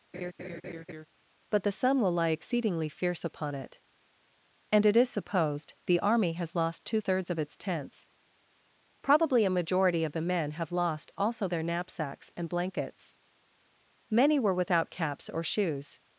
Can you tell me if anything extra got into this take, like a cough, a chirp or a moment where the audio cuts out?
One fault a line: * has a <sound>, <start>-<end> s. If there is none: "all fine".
* has a laugh, 0.1-1.1 s